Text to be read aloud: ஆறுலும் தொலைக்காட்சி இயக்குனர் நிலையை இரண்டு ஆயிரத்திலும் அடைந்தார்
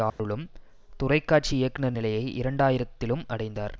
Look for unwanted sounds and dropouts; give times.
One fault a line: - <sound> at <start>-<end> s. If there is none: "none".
- dropout at 0.1-0.2 s